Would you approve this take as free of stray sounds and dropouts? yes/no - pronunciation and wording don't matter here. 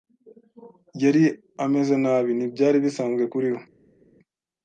yes